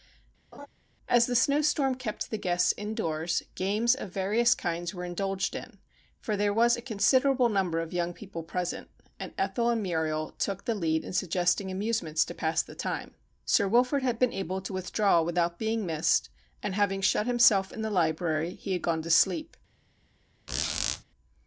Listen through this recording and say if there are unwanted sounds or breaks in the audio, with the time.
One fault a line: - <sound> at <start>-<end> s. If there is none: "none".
- laugh at 0.5-0.7 s
- squeak at 20.5-21.0 s